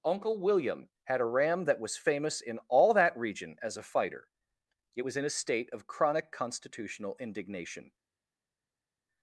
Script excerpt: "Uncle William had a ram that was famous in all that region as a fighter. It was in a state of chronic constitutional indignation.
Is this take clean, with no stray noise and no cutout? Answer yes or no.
yes